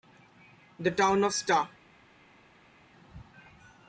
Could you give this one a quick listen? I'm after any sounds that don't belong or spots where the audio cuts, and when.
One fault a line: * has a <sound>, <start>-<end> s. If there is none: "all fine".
all fine